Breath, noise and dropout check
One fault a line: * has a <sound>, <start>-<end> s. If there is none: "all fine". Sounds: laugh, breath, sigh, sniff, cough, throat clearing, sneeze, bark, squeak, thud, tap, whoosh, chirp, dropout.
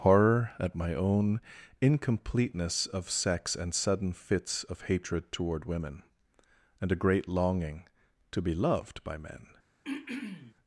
* has a throat clearing, 9.8-10.5 s